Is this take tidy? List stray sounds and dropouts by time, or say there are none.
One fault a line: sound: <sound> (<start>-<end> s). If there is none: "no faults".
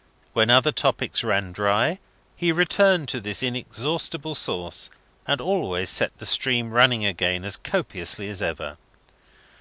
no faults